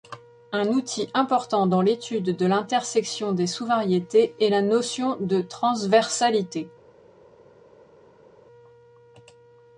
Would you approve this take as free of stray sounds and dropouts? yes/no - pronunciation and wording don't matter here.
yes